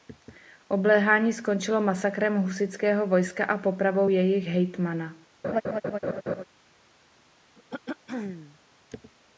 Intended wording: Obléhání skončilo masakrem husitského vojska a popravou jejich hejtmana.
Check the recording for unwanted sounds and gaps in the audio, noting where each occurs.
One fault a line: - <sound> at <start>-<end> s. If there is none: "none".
- laugh at 5.4-6.4 s
- throat clearing at 7.6-8.6 s